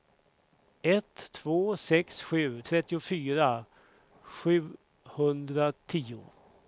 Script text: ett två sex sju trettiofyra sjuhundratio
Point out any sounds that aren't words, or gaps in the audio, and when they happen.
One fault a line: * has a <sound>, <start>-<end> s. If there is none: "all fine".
all fine